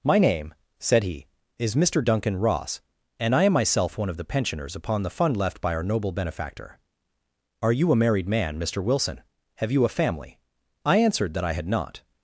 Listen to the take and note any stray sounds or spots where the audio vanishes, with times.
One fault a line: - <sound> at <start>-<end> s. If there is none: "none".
none